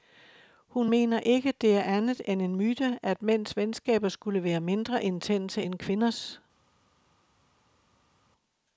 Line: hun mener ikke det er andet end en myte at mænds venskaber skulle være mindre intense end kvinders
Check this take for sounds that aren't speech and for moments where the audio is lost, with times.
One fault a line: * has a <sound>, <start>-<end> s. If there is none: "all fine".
all fine